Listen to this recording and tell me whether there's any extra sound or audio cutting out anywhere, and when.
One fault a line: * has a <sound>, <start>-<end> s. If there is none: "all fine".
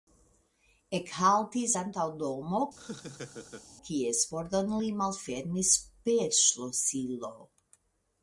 * has a laugh, 2.8-3.7 s